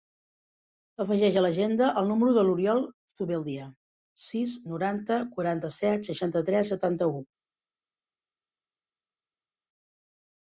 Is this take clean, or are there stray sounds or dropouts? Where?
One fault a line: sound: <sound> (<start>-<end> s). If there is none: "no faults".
no faults